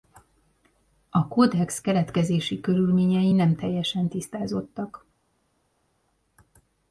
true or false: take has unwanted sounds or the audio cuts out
false